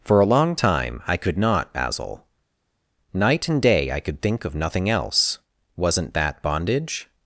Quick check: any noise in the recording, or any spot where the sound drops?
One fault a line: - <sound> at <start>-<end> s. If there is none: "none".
none